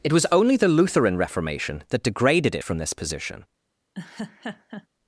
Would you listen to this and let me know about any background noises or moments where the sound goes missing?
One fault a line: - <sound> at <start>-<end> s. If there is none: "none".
- laugh at 3.9-4.9 s